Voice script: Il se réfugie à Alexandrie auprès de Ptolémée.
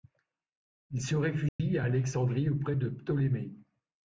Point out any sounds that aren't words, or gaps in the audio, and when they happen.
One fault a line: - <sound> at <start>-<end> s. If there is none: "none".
- dropout at 1.5-1.6 s